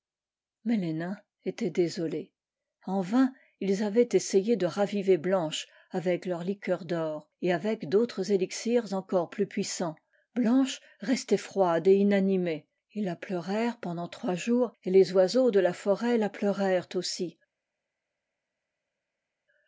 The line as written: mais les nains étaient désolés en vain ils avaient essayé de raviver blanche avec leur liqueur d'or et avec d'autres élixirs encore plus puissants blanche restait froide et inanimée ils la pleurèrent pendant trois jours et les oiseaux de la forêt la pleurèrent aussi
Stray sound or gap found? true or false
false